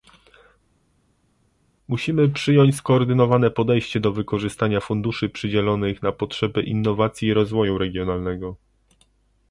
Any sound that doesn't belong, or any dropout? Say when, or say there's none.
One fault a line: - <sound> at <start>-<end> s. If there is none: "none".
none